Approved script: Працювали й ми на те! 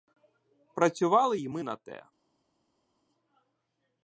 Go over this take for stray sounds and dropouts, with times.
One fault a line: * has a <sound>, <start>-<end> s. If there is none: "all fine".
all fine